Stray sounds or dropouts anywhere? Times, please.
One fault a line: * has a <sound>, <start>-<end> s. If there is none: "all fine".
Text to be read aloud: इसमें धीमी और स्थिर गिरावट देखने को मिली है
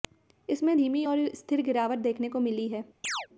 * has a chirp, 3.0-3.3 s